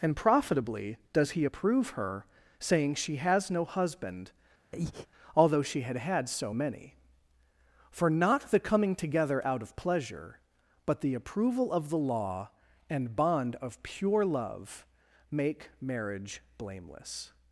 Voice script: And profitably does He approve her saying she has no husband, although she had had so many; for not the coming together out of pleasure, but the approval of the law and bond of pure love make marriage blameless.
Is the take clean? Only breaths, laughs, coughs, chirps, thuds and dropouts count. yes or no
no